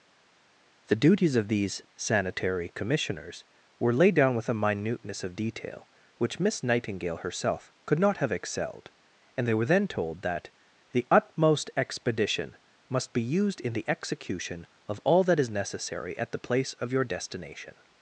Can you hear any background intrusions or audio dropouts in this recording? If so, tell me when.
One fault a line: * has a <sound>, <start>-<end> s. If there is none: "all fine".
all fine